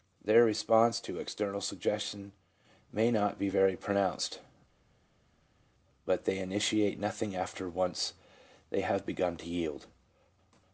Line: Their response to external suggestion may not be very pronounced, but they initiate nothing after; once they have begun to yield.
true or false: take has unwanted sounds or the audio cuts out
false